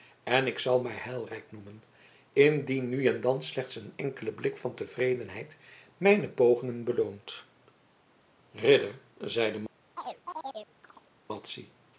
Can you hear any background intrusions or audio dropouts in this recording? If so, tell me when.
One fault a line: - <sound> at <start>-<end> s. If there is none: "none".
- chirp at 10.0-11.1 s